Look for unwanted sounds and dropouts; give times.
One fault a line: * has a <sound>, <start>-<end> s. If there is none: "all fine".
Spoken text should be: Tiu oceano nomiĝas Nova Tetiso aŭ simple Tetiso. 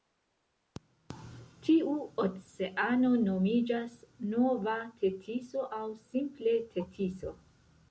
all fine